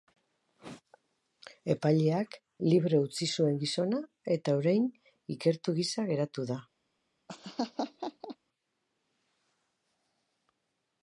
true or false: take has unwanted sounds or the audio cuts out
true